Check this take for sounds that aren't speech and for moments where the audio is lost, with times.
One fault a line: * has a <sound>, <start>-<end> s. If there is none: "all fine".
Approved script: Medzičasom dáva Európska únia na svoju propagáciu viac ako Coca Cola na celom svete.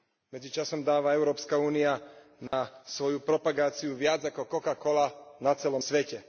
* has a dropout, 2.5-2.5 s